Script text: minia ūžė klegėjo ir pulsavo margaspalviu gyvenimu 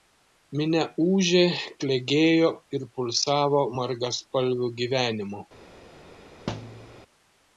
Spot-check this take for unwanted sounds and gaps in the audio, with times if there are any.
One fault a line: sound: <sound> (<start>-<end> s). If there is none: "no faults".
sound: thud (6.5-7.0 s)